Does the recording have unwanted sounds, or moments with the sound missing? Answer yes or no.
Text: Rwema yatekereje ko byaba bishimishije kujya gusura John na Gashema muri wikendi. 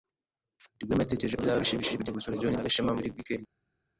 no